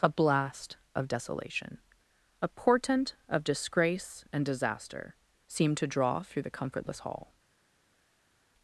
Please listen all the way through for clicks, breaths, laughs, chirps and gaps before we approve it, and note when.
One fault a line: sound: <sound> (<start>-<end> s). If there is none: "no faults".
no faults